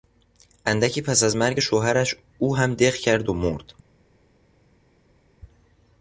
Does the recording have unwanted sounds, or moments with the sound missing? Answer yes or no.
no